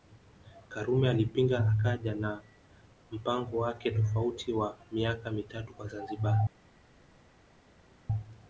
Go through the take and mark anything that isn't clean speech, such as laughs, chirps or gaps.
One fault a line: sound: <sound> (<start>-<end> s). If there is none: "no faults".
no faults